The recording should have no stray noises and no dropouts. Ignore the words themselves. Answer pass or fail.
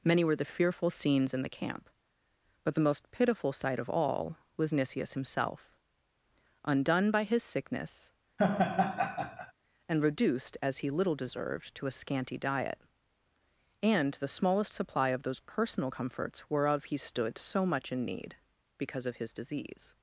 fail